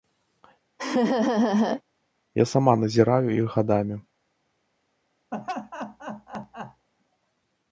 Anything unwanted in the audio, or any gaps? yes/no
yes